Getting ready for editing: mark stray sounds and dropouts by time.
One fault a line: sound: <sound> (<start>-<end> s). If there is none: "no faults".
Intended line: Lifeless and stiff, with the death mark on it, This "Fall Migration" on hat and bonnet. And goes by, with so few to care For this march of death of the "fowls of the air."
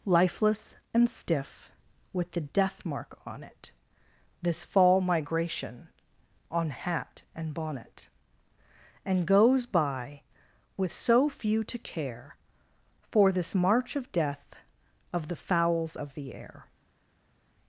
no faults